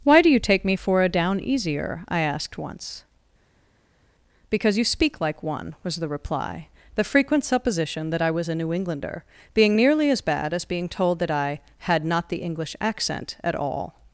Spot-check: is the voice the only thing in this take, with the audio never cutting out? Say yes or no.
yes